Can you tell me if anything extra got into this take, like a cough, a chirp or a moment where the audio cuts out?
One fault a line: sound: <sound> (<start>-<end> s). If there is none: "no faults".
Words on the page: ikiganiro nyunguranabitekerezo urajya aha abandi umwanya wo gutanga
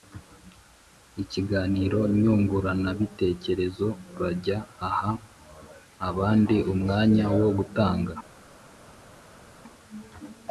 no faults